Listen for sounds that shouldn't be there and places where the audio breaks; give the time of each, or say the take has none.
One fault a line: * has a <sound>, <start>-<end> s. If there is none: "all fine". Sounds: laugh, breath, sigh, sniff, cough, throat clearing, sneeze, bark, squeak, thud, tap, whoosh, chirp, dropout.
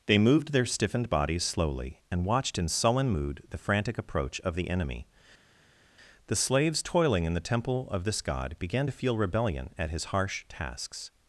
all fine